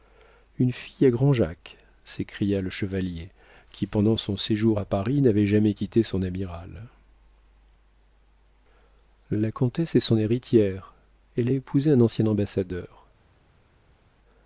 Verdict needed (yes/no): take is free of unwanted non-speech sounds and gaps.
yes